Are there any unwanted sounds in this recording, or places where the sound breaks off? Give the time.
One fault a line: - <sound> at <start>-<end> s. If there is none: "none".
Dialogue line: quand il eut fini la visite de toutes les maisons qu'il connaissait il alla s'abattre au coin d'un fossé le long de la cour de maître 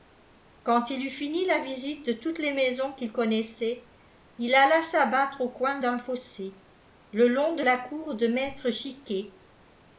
none